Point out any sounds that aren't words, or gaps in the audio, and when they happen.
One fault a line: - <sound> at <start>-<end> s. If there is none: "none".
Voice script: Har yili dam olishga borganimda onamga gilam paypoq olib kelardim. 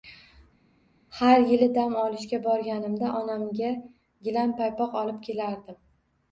none